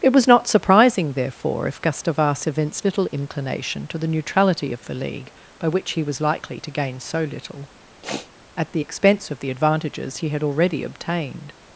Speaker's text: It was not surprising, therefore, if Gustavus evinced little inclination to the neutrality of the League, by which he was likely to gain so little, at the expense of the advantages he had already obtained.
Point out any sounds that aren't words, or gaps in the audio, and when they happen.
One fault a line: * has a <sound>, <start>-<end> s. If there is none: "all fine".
* has a sniff, 8.0-8.3 s